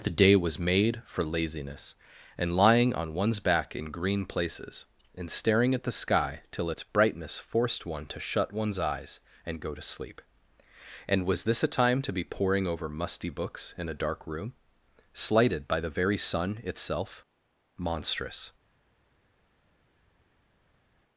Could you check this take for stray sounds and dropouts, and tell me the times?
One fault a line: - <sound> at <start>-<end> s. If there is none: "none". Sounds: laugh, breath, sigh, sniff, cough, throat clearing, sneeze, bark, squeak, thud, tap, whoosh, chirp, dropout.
none